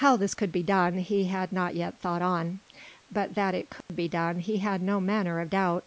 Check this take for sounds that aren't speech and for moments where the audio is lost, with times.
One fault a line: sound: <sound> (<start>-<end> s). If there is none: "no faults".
sound: dropout (3.8-3.9 s)